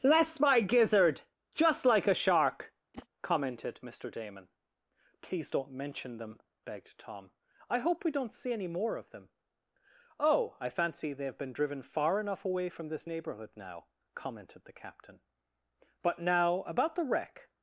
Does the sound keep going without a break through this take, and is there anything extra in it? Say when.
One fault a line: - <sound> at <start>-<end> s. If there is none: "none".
- whoosh at 2.9-3.1 s